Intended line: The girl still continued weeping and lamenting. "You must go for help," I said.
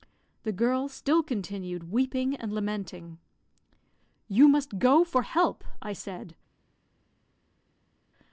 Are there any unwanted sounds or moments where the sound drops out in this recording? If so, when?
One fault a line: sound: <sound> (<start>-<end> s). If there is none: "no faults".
no faults